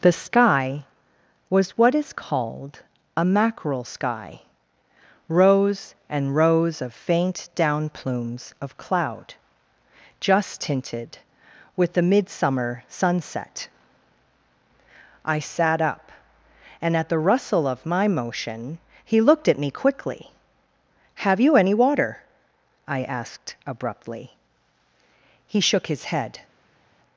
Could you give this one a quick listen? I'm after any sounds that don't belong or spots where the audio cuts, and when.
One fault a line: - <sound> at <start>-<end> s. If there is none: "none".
none